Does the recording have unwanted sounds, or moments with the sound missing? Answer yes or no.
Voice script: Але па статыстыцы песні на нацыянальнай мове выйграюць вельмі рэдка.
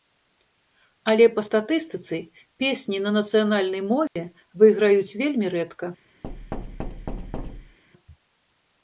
yes